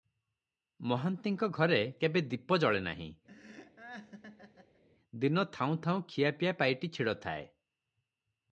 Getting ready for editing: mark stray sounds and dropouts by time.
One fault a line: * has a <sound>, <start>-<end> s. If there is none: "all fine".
* has a laugh, 3.3-4.8 s